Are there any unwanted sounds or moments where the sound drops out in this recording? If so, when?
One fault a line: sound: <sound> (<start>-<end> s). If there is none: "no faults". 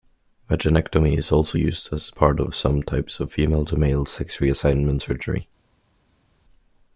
no faults